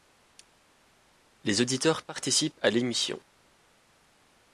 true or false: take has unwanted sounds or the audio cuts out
false